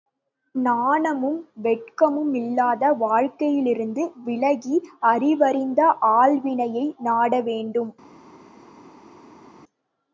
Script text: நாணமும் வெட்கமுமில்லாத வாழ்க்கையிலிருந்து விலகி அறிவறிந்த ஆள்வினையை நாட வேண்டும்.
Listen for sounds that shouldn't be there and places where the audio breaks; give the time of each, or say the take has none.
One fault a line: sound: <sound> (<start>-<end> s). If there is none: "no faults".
no faults